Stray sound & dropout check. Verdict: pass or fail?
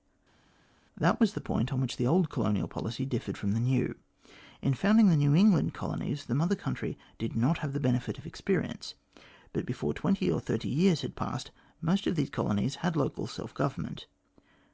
pass